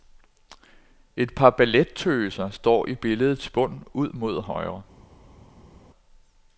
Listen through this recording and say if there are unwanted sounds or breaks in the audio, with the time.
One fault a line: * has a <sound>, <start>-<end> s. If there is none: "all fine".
all fine